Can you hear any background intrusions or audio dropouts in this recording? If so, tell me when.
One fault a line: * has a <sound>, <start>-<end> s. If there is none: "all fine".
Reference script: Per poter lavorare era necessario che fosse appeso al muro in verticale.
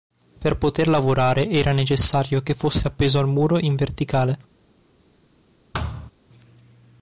* has a thud, 5.7-6.1 s